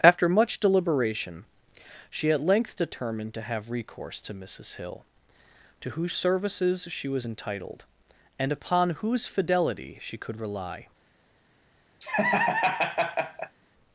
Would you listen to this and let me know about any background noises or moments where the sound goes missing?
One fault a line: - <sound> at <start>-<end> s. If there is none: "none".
- laugh at 12.0-13.6 s